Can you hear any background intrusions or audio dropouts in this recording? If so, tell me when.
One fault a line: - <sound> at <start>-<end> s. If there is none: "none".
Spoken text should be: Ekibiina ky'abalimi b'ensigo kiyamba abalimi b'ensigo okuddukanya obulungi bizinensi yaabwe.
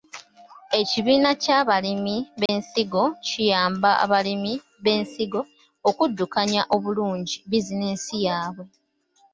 - dropout at 2.5-2.5 s